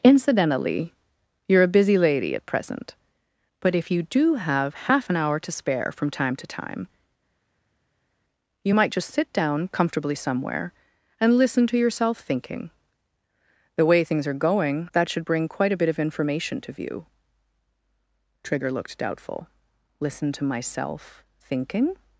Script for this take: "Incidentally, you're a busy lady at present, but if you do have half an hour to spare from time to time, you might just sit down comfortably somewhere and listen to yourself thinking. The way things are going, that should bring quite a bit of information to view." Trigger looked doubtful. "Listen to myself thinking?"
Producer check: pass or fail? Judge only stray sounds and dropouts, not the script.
pass